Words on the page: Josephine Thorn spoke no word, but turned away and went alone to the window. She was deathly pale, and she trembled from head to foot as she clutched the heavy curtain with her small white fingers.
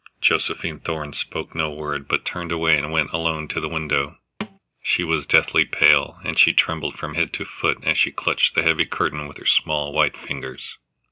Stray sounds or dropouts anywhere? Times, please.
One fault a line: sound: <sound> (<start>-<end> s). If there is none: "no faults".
sound: thud (4.4-4.6 s)